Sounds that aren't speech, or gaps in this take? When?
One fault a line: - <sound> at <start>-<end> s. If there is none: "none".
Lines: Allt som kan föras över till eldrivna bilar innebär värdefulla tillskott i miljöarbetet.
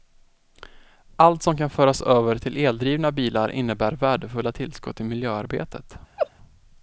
- laugh at 6.2-6.3 s